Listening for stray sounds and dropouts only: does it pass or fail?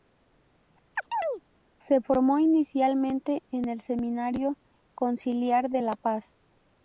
fail